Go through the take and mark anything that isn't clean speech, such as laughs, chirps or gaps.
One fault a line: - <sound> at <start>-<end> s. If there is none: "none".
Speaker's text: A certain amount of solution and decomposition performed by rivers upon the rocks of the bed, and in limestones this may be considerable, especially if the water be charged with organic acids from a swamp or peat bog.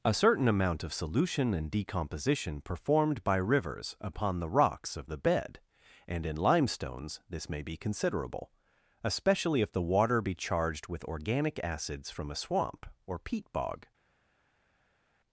none